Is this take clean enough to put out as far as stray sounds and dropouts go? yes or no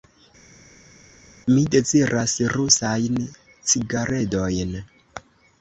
yes